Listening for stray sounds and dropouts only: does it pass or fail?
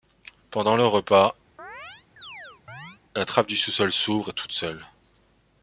fail